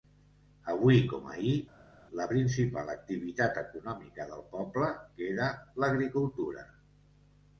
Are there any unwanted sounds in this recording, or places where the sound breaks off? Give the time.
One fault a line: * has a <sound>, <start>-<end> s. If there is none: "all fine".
all fine